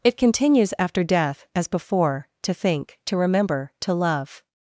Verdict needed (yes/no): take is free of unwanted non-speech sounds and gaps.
yes